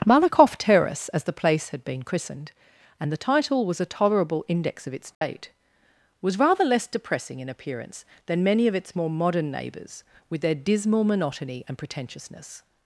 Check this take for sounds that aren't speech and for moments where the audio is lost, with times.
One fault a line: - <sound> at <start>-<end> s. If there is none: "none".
- dropout at 5.1-5.2 s